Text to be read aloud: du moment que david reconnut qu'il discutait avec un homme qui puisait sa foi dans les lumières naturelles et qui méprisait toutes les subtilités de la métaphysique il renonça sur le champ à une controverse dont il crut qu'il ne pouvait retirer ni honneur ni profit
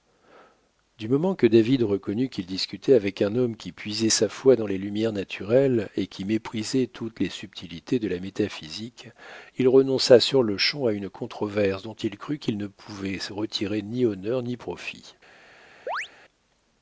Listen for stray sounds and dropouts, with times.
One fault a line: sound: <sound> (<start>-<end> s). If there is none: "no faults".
sound: chirp (15.9-16.1 s)